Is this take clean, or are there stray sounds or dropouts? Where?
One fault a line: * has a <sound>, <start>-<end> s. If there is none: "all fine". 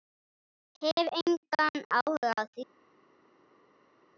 all fine